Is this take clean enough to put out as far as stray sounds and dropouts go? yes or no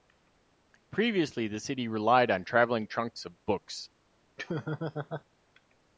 no